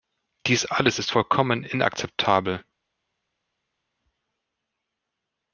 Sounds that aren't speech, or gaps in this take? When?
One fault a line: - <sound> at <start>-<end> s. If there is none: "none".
none